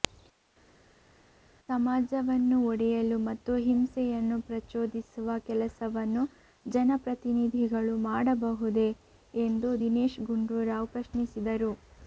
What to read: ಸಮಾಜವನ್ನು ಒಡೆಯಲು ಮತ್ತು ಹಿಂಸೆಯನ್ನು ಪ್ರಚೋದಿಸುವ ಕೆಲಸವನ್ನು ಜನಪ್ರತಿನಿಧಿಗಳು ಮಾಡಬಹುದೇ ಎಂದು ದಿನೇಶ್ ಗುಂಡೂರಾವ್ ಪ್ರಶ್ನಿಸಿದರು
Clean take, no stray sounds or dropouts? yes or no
yes